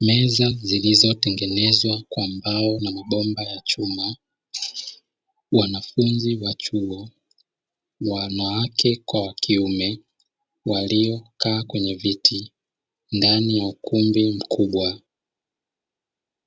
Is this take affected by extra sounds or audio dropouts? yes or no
no